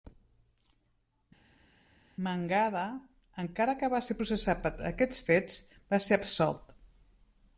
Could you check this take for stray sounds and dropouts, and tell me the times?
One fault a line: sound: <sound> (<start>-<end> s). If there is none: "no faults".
no faults